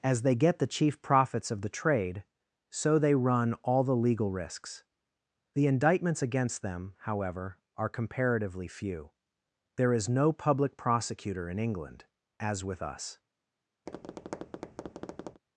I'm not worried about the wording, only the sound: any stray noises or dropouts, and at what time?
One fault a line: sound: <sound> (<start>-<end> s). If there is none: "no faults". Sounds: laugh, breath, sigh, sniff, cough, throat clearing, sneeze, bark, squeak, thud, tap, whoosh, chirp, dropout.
sound: tap (13.9-15.4 s)